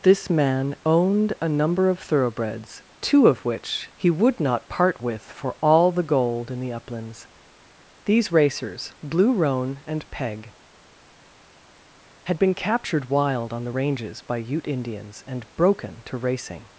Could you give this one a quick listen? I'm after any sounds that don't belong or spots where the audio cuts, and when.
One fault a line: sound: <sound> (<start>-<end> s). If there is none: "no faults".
no faults